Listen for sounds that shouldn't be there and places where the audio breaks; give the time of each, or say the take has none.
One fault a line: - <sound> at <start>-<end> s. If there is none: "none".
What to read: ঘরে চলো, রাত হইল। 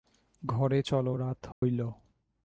- dropout at 1.5-1.6 s